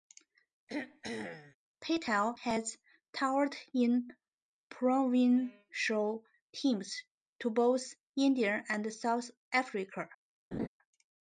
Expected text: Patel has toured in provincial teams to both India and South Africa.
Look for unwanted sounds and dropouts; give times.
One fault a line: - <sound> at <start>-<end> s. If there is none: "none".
- throat clearing at 0.7-1.6 s
- laugh at 10.5-10.7 s